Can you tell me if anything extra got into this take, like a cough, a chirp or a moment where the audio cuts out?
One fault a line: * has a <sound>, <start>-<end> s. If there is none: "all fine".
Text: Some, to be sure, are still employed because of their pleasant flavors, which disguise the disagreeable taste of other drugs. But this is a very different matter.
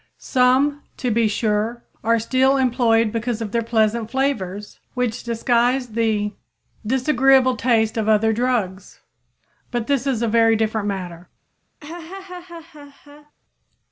* has a laugh, 11.8-13.3 s